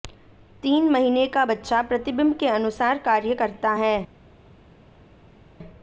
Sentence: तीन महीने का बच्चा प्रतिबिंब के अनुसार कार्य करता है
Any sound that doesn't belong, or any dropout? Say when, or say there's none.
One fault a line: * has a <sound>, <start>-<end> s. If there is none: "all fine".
all fine